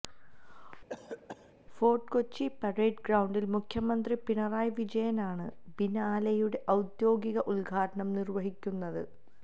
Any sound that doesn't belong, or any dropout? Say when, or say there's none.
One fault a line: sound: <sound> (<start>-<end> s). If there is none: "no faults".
sound: cough (0.9-1.5 s)